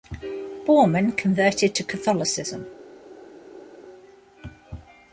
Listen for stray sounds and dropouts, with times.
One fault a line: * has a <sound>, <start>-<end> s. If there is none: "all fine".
all fine